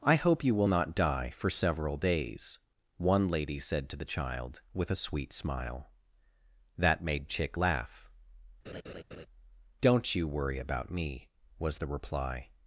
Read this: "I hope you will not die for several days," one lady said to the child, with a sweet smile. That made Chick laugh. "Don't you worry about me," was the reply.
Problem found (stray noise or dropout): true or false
true